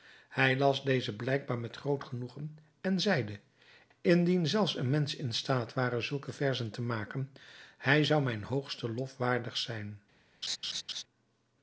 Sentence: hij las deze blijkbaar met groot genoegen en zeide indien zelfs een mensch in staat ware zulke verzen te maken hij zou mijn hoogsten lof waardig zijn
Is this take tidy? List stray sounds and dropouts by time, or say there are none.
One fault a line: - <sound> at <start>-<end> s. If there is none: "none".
- laugh at 10.4-11.0 s